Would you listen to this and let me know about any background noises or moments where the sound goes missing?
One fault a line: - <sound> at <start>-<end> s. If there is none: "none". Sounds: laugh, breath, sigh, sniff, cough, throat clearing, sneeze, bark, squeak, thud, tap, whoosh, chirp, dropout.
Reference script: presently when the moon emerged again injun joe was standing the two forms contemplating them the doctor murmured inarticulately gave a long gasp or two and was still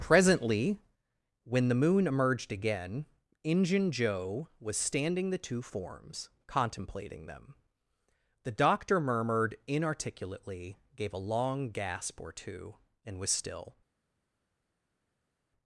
none